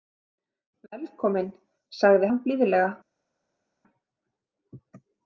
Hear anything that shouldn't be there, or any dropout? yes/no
no